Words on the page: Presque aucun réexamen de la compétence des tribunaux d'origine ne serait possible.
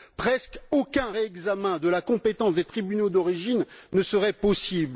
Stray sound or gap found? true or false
false